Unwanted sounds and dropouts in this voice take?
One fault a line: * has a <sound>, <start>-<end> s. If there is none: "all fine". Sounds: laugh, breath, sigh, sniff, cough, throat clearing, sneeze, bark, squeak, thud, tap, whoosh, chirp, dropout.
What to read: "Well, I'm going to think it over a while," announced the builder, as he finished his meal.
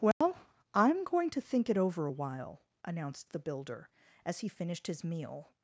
* has a dropout, 0.1-0.2 s